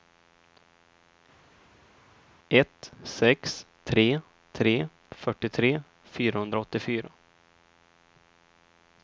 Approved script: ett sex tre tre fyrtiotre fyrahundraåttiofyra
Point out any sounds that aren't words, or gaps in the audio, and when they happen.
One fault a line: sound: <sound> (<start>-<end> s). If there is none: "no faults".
no faults